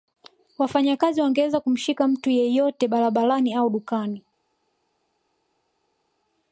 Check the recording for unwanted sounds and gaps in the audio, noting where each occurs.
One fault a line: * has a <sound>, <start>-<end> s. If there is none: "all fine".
all fine